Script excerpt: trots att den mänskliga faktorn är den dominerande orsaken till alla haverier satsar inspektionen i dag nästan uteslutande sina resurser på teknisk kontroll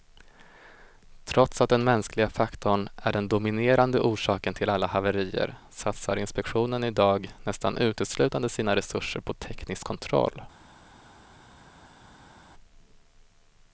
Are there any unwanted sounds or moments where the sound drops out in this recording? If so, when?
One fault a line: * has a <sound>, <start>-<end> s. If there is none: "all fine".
all fine